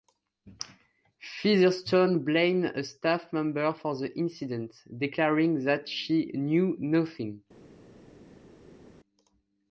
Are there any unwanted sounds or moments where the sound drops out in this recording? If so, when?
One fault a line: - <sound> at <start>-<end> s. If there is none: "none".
none